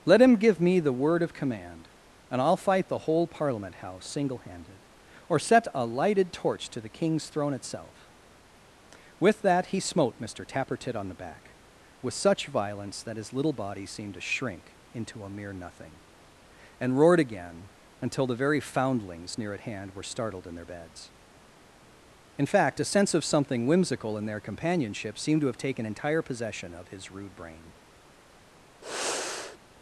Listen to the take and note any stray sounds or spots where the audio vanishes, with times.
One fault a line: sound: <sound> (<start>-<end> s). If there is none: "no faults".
sound: sigh (28.8-29.6 s)